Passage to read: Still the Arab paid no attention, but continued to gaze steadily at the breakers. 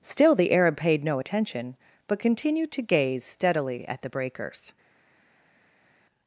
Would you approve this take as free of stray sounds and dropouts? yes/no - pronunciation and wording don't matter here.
yes